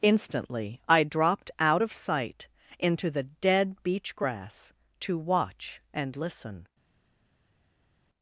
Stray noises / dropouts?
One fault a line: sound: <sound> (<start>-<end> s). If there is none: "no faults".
no faults